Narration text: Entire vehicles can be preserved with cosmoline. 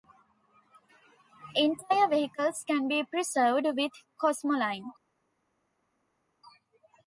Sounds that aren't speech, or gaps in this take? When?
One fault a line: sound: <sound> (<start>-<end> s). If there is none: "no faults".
no faults